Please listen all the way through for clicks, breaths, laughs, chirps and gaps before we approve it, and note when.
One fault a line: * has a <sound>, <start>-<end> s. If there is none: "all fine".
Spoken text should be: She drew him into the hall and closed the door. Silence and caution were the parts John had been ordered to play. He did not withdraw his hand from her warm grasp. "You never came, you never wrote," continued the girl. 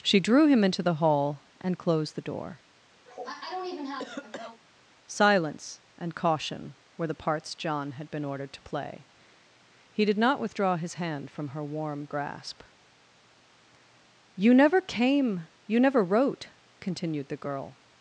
* has a cough, 3.1-4.6 s